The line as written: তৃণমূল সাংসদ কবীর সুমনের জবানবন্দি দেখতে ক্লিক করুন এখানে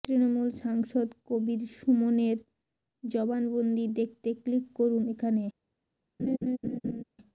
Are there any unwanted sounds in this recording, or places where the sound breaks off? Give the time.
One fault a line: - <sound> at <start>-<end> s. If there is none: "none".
- laugh at 6.2-7.0 s